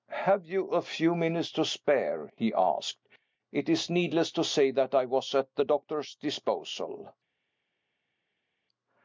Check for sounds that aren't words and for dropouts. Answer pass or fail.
pass